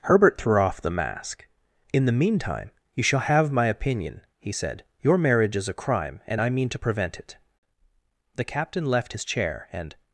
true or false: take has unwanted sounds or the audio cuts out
false